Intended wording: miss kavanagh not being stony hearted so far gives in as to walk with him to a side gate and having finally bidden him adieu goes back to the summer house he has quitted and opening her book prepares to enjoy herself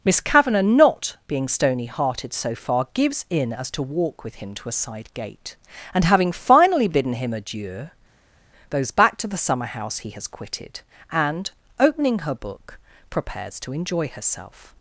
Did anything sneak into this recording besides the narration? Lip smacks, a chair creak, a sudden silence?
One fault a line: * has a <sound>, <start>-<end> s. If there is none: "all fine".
all fine